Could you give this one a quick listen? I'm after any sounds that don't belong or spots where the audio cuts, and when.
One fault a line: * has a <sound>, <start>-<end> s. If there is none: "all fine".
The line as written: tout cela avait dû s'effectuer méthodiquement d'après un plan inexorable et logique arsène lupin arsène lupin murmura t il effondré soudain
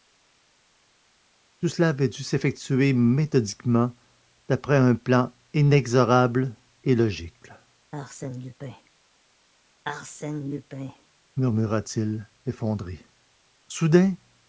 all fine